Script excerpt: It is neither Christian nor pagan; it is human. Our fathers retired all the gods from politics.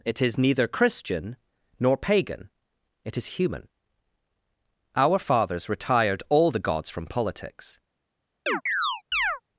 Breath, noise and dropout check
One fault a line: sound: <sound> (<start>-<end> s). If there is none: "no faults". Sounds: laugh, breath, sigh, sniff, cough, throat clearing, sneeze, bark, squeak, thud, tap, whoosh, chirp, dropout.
sound: chirp (8.5-9.4 s)